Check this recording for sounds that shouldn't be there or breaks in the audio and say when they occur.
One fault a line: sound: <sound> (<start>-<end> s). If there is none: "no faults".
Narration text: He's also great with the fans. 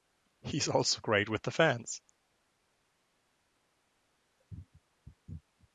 no faults